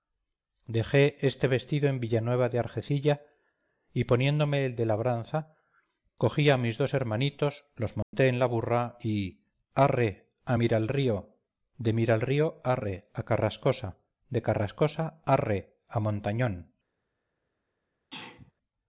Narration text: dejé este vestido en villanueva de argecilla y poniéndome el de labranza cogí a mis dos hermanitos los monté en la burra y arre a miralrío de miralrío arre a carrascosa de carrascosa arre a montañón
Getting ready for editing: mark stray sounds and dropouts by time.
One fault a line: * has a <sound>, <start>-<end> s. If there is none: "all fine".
* has a dropout, 8.0-8.1 s
* has a sneeze, 18.1-18.5 s